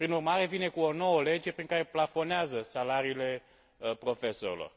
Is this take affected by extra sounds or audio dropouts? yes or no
no